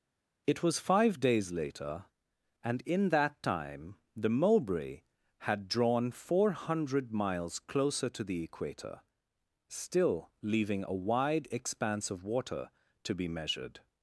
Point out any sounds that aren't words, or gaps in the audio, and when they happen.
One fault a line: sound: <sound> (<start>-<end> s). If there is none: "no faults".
no faults